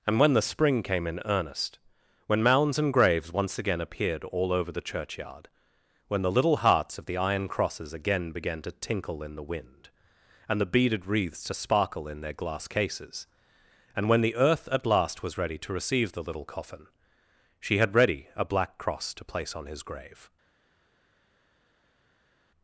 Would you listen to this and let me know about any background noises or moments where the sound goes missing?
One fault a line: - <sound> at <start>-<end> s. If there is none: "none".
none